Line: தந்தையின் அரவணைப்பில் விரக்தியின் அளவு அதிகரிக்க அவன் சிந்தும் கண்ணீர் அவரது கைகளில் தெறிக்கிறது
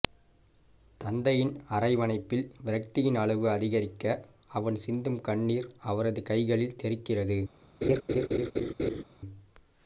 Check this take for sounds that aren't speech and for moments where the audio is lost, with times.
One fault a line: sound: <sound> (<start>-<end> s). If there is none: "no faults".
sound: laugh (7.8-9.0 s)